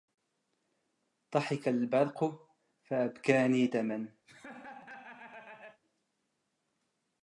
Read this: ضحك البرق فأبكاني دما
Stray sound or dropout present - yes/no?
yes